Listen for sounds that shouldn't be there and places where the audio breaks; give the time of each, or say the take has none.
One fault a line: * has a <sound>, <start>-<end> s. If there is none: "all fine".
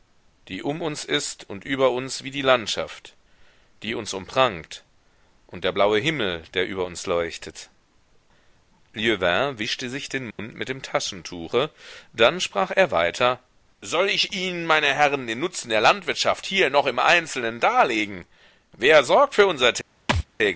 * has a dropout, 10.3-10.4 s
* has a thud, 20.1-20.3 s